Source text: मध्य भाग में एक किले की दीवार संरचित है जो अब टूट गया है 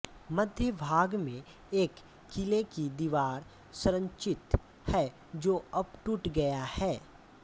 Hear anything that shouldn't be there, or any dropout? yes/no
no